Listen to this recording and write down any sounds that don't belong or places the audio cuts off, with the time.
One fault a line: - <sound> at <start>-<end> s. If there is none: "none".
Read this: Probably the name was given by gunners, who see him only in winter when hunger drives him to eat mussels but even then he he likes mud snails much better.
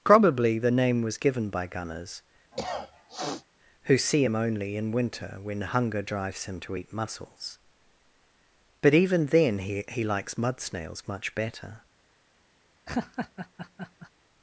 - cough at 2.5-3.5 s
- laugh at 12.9-14.1 s